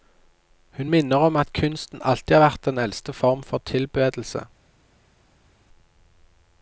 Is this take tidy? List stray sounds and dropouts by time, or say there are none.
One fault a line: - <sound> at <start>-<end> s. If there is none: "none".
none